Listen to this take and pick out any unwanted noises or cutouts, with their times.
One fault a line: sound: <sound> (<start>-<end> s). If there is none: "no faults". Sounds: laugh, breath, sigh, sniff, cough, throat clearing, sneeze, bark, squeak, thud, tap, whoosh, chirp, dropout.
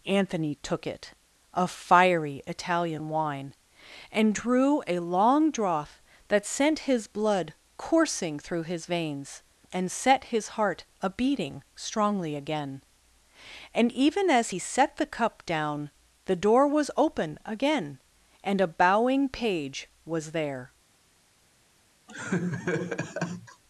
sound: laugh (22.1-23.6 s)